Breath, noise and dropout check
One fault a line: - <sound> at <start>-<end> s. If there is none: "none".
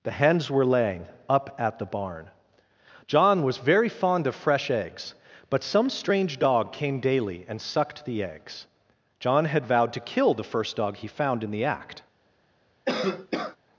- cough at 12.9-13.6 s